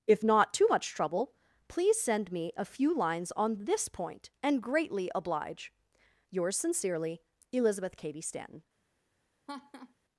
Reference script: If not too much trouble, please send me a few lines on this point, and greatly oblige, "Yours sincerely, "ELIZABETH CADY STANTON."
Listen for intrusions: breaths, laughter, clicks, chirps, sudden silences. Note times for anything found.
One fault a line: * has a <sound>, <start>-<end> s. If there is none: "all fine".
* has a laugh, 9.5-9.9 s